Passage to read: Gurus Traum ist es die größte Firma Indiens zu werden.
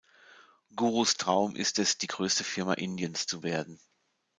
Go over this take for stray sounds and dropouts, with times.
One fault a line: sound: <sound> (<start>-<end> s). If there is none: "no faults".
no faults